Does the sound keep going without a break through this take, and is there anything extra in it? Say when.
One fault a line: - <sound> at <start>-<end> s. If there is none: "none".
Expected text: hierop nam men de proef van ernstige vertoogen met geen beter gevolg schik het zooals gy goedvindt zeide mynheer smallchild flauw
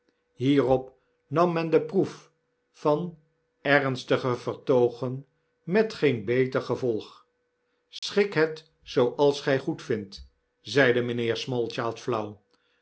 - dropout at 8.0-8.0 s